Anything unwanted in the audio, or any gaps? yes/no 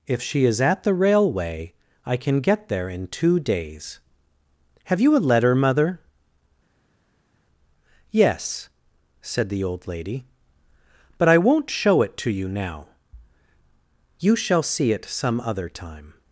no